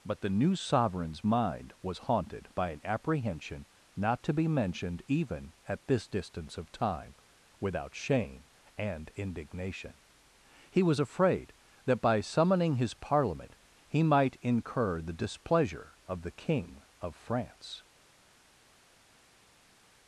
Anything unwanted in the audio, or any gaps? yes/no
no